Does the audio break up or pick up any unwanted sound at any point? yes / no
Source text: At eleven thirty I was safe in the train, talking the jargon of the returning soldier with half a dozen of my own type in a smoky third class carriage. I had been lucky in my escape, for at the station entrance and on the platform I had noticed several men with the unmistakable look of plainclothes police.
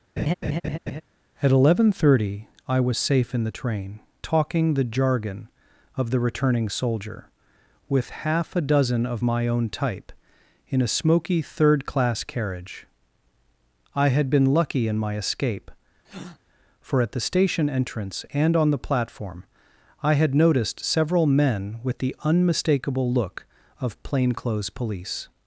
yes